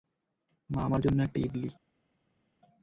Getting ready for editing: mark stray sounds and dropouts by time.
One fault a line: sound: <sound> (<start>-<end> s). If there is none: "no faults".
no faults